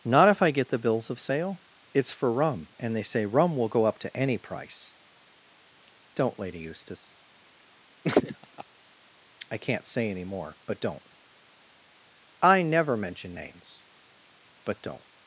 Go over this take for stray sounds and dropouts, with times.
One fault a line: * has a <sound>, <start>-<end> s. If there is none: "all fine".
* has a laugh, 8.0-8.6 s